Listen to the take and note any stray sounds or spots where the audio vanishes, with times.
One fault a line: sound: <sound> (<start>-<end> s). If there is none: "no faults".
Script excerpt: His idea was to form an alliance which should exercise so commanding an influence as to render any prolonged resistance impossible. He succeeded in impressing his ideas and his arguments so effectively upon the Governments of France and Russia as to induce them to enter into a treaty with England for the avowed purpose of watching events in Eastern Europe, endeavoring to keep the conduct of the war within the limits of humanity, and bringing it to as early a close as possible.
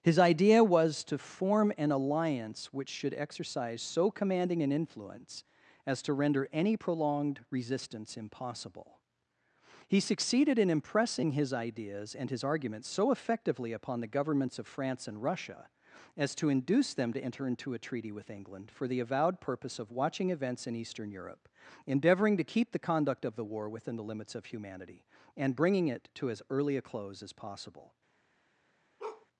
sound: bark (29.0-29.3 s)